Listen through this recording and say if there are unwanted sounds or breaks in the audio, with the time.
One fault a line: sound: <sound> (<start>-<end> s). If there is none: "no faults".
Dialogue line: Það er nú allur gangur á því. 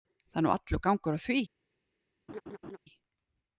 sound: laugh (2.3-2.8 s)